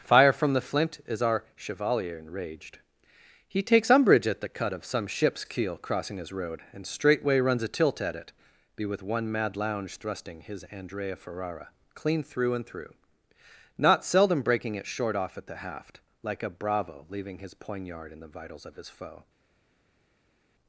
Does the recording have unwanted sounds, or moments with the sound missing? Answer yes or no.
no